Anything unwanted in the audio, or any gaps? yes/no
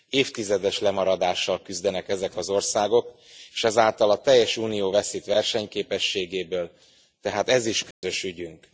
yes